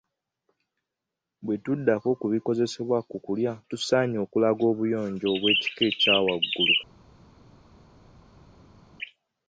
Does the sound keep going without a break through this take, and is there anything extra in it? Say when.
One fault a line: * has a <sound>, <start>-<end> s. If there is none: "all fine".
all fine